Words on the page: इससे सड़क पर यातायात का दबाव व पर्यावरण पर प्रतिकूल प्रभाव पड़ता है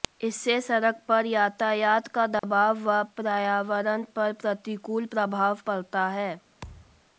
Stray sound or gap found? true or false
true